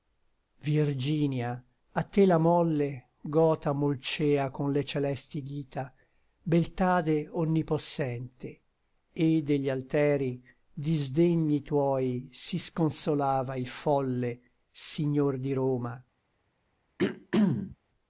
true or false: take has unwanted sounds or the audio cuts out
true